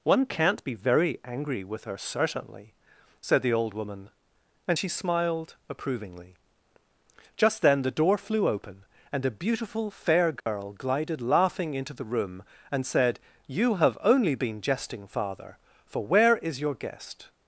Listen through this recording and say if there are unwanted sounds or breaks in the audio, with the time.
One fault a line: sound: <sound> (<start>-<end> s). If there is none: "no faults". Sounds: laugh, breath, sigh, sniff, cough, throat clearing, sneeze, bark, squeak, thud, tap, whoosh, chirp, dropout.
sound: dropout (10.4-10.5 s)